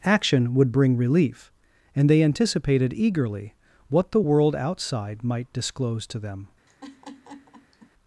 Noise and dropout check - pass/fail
fail